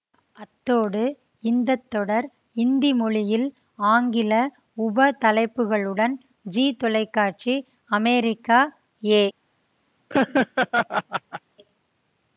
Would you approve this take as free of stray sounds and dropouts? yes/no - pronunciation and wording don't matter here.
no